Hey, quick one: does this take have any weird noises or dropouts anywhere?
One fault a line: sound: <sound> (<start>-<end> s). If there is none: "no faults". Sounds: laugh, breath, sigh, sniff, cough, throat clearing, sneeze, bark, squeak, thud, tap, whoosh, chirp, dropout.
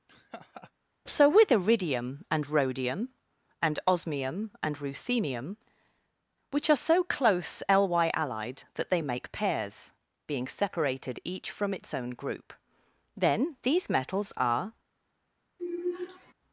sound: laugh (0.1-0.7 s)
sound: sigh (15.6-16.3 s)